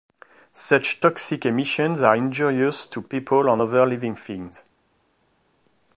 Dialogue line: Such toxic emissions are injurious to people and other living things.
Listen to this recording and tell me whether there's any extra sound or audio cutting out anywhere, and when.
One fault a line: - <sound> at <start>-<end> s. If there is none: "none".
none